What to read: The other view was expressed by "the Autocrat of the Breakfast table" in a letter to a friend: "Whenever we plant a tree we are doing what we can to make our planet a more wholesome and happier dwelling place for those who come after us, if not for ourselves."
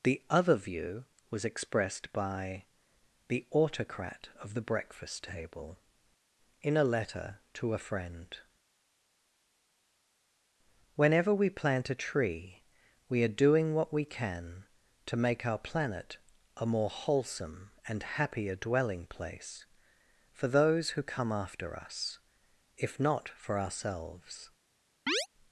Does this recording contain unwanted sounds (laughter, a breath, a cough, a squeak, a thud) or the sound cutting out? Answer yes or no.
yes